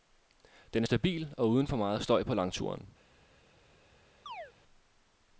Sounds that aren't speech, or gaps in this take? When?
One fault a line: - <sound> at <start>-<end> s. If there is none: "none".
- chirp at 4.3-4.5 s